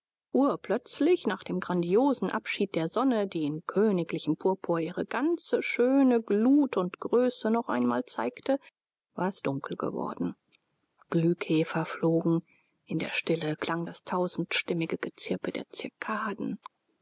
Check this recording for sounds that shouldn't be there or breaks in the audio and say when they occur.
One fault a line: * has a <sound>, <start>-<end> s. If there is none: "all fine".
all fine